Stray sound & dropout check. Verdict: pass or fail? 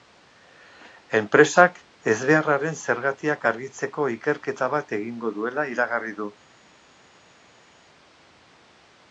pass